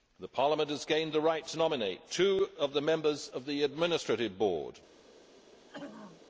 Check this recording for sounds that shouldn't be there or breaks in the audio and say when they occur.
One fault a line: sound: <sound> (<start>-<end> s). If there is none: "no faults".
sound: throat clearing (5.7-6.3 s)